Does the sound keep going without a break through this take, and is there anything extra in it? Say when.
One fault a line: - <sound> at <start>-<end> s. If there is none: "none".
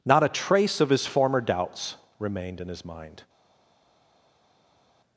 none